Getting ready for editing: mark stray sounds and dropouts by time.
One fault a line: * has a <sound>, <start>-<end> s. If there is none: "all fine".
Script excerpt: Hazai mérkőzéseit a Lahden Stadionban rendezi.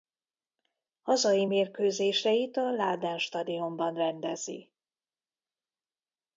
all fine